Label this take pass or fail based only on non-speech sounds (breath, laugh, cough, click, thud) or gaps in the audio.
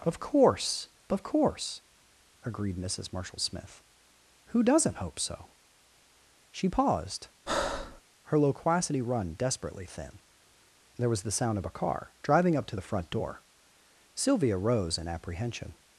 fail